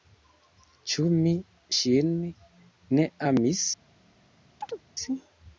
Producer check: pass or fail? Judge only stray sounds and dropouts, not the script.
fail